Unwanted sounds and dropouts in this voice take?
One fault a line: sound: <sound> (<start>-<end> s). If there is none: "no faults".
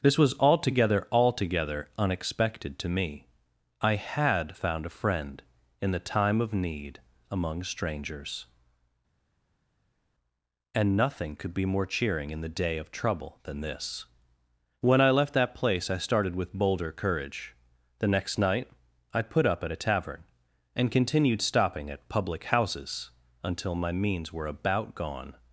no faults